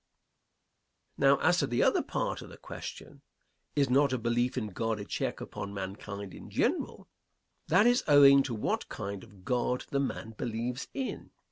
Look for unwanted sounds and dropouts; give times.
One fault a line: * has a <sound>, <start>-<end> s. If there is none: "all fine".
all fine